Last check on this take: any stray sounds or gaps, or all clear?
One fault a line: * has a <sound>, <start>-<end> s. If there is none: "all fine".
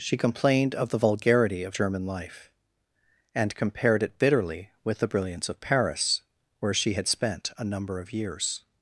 all fine